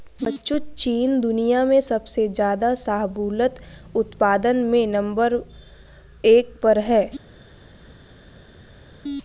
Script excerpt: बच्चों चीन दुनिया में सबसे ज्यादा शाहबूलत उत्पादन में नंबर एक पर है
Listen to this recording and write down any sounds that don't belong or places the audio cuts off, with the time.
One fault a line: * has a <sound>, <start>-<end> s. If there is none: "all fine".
all fine